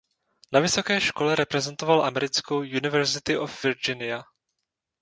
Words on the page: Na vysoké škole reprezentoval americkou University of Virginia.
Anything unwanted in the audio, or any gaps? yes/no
no